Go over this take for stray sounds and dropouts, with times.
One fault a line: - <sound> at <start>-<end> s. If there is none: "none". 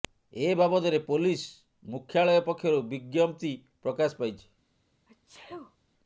- sneeze at 5.1-5.8 s